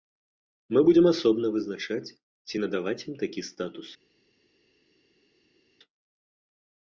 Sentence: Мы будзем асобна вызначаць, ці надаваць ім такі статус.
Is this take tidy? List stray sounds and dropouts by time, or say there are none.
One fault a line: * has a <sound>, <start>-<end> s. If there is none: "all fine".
all fine